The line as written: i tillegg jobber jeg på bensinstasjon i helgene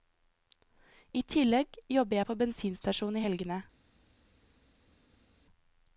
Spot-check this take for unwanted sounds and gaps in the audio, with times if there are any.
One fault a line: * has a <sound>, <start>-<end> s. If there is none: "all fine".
all fine